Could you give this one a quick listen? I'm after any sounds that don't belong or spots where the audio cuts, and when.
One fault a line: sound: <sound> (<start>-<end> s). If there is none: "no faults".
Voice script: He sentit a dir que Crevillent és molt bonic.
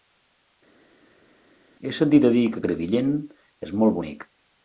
no faults